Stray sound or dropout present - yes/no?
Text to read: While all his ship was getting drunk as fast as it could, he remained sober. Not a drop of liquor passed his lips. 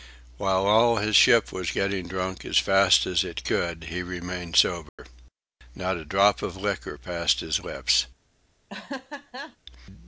yes